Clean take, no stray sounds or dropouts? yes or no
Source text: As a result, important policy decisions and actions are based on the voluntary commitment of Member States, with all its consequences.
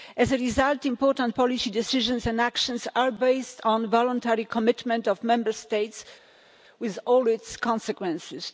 yes